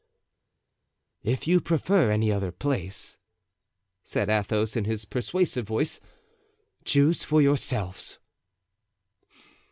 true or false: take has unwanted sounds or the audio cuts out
false